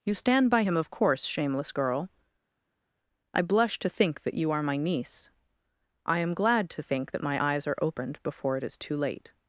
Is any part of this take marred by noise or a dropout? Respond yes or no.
no